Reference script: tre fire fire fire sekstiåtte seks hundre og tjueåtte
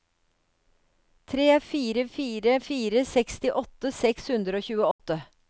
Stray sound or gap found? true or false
true